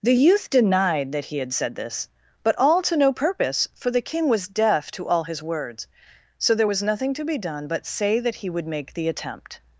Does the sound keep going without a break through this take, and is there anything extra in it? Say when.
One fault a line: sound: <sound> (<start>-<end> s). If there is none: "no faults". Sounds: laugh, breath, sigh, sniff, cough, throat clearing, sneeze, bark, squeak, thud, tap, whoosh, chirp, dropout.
no faults